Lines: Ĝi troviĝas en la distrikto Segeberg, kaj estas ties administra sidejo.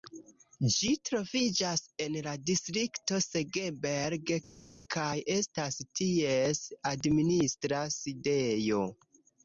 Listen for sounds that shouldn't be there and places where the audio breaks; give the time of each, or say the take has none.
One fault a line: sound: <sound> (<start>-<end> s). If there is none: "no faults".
no faults